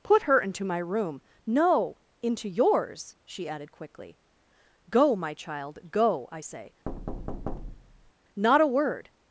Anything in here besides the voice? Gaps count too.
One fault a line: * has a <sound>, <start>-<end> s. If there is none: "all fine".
* has a thud, 6.9-8.1 s